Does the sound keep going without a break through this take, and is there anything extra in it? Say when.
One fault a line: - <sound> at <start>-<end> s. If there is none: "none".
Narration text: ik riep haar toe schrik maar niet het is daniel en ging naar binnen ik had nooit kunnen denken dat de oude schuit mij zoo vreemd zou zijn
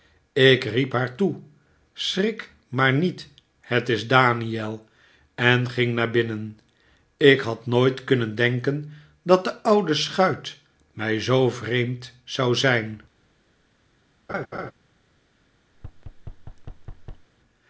- laugh at 14.3-14.7 s
- thud at 15.7-17.3 s